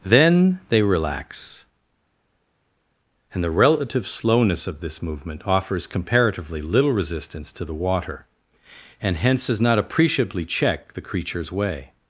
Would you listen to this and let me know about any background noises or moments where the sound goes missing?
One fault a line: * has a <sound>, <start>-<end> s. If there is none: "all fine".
all fine